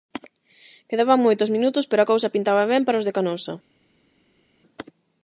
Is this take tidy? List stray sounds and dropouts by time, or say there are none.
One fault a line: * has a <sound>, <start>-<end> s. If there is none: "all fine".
all fine